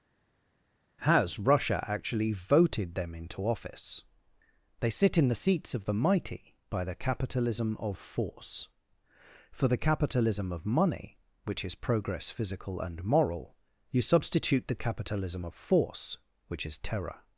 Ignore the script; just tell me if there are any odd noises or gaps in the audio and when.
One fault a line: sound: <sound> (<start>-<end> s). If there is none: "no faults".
no faults